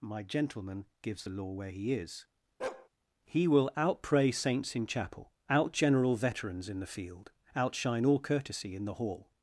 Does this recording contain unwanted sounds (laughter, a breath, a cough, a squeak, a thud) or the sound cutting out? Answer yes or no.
yes